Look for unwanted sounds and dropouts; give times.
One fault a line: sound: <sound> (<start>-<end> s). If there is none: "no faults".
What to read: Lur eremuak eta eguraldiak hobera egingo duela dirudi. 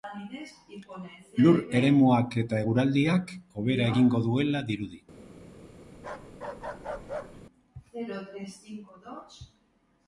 sound: bark (6.0-7.4 s)